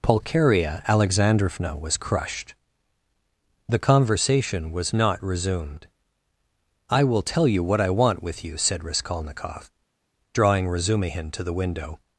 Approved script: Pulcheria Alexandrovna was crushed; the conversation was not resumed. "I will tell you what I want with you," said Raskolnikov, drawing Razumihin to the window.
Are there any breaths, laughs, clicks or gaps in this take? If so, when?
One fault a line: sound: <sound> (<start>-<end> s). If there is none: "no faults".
no faults